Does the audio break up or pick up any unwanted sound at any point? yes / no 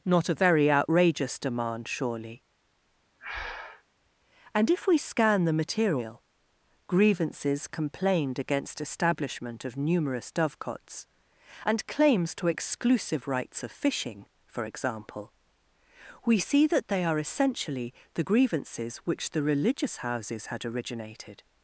yes